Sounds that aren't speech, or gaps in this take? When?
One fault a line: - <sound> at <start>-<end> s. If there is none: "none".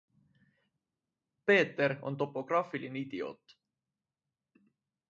none